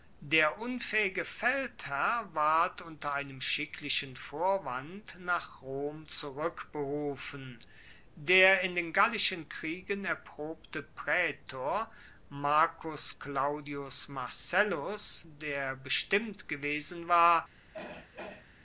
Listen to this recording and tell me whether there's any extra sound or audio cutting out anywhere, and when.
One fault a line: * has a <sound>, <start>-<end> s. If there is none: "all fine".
* has a throat clearing, 17.7-18.5 s